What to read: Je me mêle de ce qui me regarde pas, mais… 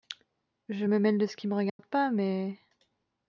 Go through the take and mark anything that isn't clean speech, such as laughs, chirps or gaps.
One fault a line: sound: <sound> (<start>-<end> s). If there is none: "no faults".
sound: dropout (1.7-1.8 s)